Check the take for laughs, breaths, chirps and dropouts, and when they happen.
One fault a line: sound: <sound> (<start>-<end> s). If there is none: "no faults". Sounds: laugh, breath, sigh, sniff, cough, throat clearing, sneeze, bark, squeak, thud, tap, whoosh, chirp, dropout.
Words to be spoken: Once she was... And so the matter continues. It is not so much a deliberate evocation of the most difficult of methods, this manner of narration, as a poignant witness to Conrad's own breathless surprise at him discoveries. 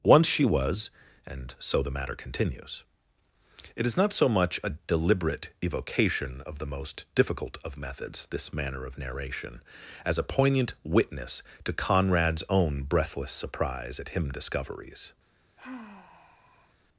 sound: sigh (15.6-16.7 s)